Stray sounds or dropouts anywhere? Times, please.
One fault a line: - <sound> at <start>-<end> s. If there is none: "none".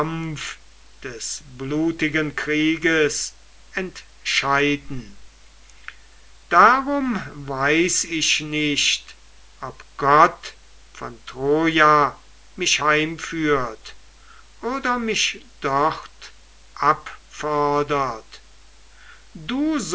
none